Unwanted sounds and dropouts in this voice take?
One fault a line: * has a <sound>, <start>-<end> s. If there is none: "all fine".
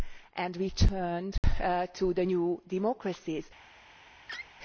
* has a dropout, 1.4-1.4 s
* has a laugh, 4.3-4.5 s